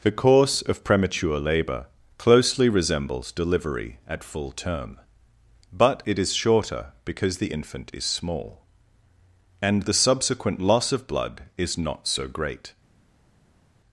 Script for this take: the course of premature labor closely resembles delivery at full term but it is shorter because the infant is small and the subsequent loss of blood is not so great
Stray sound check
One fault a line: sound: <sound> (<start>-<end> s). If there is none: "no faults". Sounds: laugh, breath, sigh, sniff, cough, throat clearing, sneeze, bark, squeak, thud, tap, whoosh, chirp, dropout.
no faults